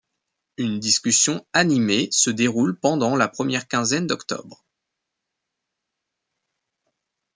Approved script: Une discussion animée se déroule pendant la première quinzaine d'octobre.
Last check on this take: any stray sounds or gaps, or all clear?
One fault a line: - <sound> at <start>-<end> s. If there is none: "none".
none